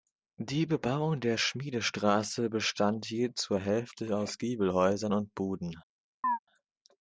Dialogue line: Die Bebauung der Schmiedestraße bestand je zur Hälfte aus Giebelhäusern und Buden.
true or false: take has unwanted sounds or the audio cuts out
true